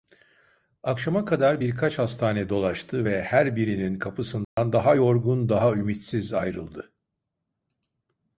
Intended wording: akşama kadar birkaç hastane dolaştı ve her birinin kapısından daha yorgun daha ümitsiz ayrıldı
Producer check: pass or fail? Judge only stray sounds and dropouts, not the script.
fail